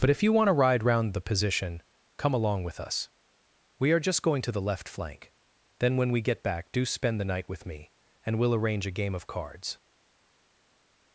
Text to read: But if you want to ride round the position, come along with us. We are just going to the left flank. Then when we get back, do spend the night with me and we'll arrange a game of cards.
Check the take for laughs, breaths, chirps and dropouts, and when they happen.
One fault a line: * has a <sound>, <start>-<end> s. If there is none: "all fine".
all fine